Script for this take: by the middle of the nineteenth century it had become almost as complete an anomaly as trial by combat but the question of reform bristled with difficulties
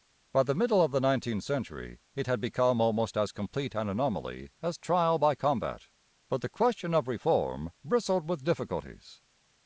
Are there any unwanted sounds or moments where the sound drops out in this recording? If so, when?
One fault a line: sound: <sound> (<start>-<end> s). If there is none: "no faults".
no faults